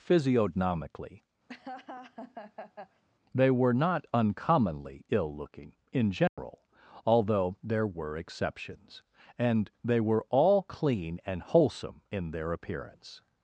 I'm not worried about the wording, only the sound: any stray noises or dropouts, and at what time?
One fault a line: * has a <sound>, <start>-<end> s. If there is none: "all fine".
* has a laugh, 1.5-3.0 s
* has a dropout, 6.3-6.4 s